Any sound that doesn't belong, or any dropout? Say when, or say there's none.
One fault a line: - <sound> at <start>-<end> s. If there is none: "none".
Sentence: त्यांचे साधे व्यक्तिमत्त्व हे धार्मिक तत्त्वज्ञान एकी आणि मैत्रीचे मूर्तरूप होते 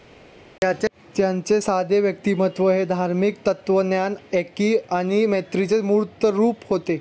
none